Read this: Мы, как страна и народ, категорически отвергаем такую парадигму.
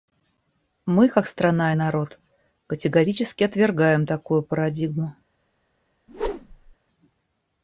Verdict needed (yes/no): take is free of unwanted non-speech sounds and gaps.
no